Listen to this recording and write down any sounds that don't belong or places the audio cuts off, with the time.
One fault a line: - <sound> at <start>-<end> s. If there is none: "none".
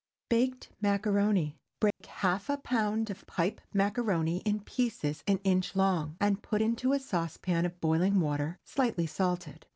- dropout at 1.9-2.0 s